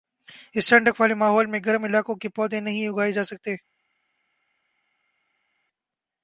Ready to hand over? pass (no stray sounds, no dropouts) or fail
pass